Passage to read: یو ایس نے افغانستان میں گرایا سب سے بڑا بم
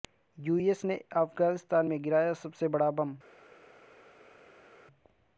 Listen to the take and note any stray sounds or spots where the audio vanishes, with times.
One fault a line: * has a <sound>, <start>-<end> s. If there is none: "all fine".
all fine